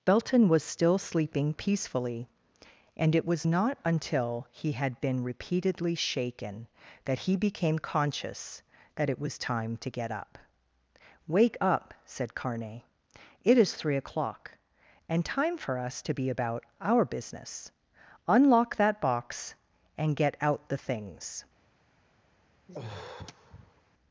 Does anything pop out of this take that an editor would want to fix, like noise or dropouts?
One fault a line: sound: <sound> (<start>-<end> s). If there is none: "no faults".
sound: sigh (22.7-23.8 s)